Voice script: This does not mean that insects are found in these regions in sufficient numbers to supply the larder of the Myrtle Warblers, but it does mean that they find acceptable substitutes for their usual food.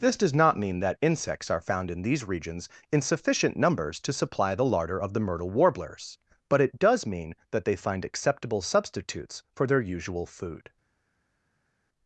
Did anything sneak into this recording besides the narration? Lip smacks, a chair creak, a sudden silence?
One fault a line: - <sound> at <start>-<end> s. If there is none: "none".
none